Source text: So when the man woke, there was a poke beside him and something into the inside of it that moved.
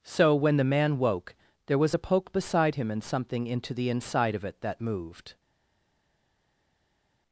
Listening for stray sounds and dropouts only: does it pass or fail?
pass